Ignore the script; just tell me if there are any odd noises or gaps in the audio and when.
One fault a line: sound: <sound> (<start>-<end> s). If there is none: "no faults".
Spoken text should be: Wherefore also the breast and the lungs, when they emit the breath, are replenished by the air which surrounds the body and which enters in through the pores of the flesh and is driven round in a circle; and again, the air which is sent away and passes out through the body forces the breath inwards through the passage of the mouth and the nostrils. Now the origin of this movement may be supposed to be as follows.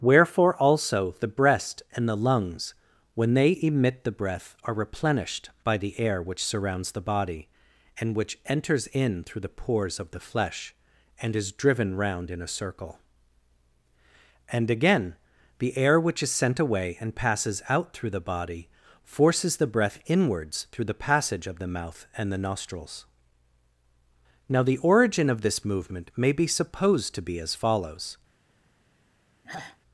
sound: sigh (29.4-29.8 s)